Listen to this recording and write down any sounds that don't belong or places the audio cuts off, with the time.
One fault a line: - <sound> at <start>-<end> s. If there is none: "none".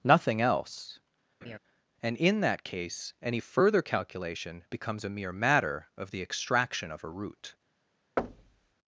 - laugh at 1.4-1.6 s
- thud at 8.2-8.7 s